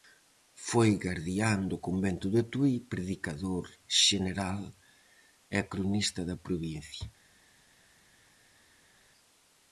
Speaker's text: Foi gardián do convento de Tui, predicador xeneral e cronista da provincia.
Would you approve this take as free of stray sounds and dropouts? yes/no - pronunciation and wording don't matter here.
yes